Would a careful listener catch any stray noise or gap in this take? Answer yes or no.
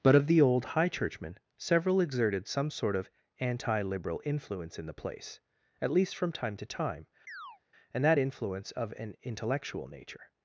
yes